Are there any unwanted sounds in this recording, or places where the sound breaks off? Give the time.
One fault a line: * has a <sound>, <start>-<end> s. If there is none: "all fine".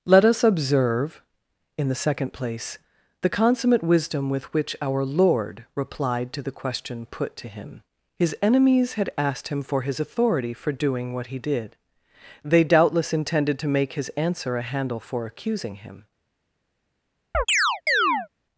* has a chirp, 17.3-18.3 s